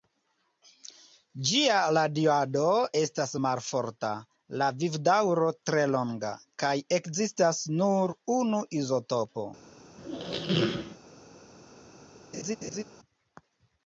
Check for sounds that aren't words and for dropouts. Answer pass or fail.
fail